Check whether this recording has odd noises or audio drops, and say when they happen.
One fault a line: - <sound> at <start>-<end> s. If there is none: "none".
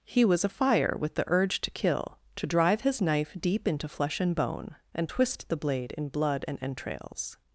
none